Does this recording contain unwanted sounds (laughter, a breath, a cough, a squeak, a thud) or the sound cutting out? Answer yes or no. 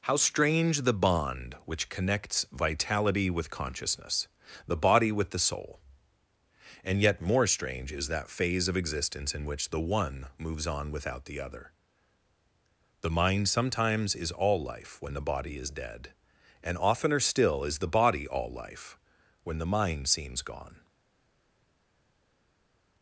no